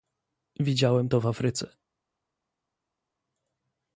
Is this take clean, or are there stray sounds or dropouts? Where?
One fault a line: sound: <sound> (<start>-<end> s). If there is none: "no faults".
no faults